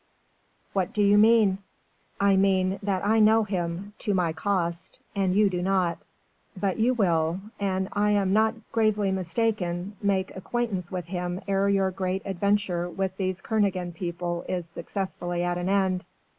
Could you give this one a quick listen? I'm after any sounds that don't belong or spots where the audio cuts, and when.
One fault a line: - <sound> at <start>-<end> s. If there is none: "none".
none